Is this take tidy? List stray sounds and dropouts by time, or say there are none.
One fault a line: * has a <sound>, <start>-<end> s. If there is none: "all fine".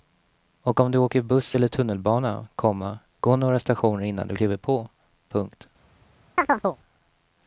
* has a chirp, 6.4-6.8 s